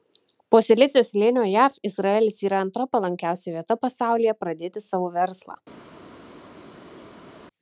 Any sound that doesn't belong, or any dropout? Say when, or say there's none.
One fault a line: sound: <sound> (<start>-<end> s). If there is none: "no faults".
no faults